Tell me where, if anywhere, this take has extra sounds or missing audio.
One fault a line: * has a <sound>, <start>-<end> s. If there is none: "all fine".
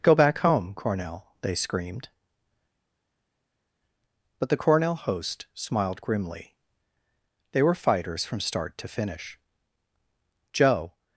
all fine